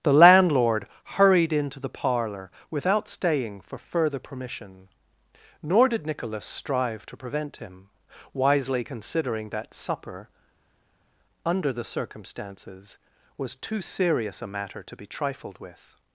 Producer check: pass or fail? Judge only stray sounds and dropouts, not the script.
pass